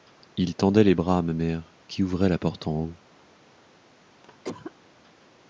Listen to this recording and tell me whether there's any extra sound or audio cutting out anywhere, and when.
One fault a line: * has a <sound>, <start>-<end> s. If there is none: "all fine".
* has a cough, 4.2-4.7 s